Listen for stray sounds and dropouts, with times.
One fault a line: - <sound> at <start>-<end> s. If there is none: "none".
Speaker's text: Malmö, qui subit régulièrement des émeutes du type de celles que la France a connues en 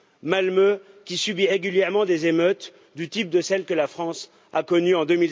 none